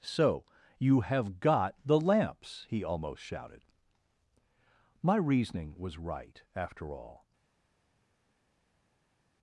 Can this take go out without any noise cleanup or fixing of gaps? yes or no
yes